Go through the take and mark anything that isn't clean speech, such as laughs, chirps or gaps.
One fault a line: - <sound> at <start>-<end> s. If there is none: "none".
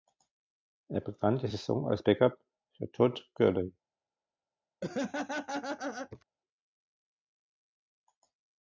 - laugh at 4.8-6.2 s